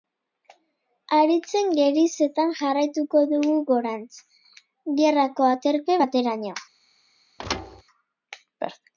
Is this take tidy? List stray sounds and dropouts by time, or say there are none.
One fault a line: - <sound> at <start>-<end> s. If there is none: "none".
- thud at 7.4-7.8 s